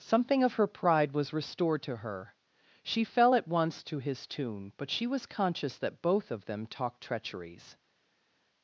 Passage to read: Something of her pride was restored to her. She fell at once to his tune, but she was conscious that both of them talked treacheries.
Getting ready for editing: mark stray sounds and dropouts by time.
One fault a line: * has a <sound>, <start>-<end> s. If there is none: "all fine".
all fine